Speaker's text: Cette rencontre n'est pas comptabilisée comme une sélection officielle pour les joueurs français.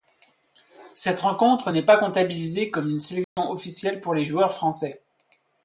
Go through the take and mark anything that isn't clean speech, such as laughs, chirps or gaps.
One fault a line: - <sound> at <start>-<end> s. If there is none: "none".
- dropout at 3.2-3.4 s